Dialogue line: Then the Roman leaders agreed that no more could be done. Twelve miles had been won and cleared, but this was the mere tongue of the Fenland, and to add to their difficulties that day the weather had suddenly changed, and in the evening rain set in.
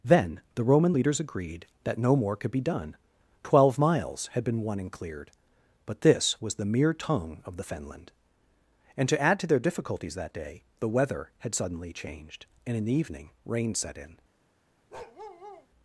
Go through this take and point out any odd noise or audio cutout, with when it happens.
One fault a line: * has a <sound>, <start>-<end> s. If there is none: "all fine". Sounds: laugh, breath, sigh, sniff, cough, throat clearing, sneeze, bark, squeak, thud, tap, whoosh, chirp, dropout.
* has a bark, 14.9-15.7 s